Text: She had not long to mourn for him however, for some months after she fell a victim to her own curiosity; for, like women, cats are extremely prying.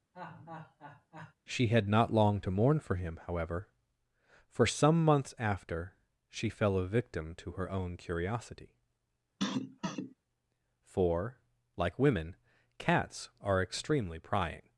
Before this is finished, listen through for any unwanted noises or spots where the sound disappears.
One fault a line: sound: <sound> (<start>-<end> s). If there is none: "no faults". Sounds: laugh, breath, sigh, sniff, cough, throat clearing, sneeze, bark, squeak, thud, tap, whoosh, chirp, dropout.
sound: laugh (0.1-1.3 s)
sound: cough (9.4-10.1 s)